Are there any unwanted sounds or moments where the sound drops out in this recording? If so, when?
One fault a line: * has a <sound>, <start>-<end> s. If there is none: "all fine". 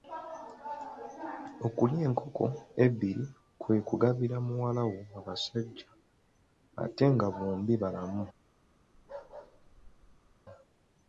* has a bark, 8.9-10.4 s